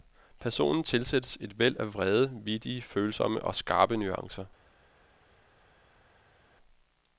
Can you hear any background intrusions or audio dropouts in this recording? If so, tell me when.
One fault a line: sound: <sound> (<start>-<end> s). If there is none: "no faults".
no faults